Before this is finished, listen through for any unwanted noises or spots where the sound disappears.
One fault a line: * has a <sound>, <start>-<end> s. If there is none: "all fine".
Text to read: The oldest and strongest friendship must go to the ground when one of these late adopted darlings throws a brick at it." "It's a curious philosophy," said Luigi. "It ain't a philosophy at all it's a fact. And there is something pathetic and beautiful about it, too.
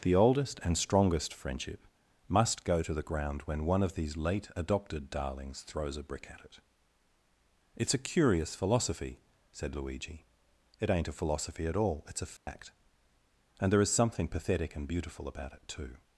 * has a dropout, 12.4-12.5 s